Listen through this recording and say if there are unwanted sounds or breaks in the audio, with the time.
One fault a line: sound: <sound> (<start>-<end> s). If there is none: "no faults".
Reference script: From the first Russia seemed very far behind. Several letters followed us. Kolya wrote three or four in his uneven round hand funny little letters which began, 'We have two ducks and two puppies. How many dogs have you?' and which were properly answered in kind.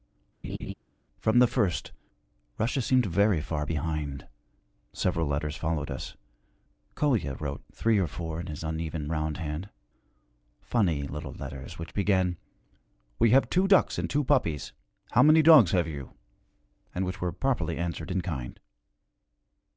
sound: laugh (0.4-0.7 s)